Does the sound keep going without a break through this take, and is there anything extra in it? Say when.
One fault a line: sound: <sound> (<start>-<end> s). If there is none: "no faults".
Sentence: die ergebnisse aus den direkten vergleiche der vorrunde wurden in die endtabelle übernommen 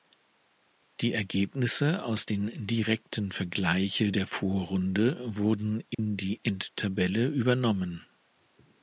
sound: dropout (5.9-6.0 s)